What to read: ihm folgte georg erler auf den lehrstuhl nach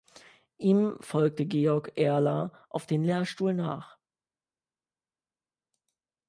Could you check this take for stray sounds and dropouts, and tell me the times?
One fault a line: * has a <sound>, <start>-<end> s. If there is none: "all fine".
all fine